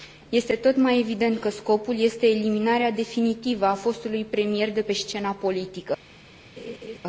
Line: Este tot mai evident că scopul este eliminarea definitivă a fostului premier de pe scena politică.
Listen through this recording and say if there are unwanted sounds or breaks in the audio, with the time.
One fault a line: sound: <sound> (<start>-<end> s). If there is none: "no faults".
sound: laugh (6.6-7.0 s)